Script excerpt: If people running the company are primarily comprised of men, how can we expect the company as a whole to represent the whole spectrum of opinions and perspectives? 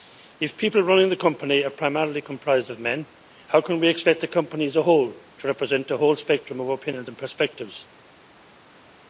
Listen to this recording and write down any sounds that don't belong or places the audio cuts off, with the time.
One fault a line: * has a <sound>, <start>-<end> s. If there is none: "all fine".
all fine